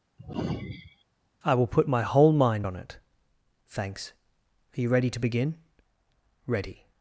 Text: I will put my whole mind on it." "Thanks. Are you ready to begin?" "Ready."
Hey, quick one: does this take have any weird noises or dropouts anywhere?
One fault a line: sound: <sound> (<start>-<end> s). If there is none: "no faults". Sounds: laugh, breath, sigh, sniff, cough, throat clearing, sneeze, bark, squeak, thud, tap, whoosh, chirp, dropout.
sound: sigh (0.2-1.0 s)